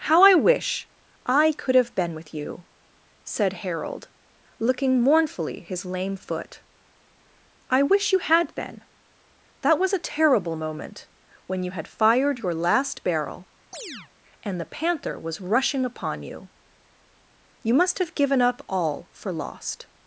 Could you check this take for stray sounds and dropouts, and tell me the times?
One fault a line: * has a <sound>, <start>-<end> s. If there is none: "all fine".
* has a chirp, 13.7-14.1 s